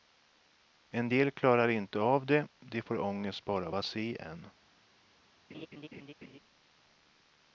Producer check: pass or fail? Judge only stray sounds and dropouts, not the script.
fail